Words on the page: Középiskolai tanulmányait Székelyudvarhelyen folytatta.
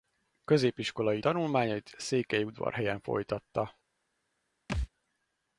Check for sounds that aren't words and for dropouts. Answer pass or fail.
fail